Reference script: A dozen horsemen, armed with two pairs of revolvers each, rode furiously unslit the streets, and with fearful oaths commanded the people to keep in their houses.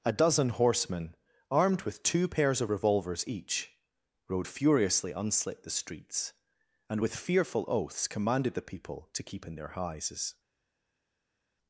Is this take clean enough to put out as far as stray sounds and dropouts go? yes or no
yes